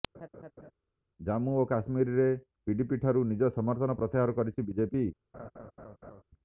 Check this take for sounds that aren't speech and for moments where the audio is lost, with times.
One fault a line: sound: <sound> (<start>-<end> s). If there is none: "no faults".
sound: laugh (0.1-0.7 s)
sound: laugh (5.3-6.2 s)